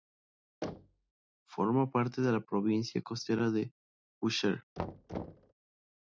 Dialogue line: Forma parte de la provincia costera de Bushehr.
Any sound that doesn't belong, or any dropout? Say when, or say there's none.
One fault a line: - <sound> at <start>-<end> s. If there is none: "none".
- thud at 0.6-1.1 s
- thud at 4.8-5.5 s